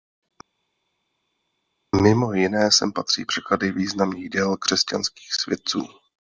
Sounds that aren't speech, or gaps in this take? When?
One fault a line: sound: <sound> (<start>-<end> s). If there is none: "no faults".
no faults